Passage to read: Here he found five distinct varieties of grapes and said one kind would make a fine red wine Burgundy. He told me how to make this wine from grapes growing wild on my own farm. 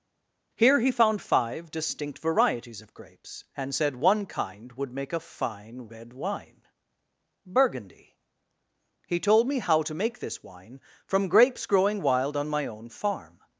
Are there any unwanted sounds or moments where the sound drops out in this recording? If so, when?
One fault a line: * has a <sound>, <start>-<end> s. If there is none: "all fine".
all fine